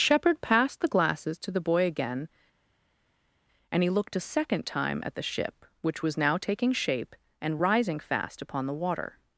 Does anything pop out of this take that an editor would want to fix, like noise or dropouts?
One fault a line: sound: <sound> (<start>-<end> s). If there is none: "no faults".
no faults